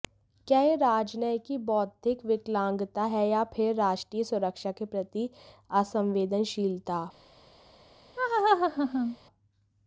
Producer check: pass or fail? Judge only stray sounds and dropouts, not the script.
fail